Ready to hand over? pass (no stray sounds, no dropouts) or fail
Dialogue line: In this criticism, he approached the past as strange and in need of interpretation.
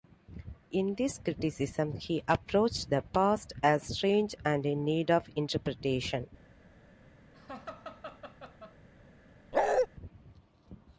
fail